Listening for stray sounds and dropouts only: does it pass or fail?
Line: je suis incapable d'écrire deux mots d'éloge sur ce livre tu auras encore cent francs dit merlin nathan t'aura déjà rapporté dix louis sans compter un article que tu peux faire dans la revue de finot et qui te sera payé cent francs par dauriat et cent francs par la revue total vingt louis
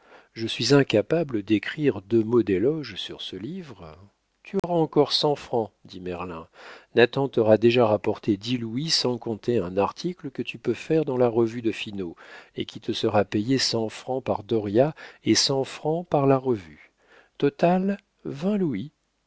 fail